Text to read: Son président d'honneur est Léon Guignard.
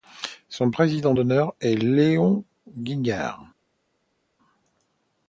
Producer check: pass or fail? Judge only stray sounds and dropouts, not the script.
pass